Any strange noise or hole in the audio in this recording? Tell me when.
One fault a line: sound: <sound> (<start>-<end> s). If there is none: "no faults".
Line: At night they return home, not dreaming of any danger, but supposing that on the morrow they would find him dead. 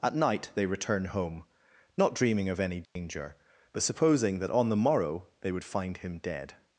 sound: dropout (2.9-3.0 s)